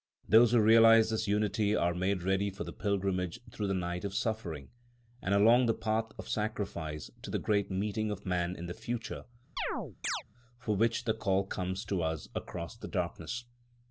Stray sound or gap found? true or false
true